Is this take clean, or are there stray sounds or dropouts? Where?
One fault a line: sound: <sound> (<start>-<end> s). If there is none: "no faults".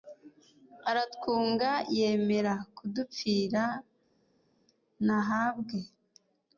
no faults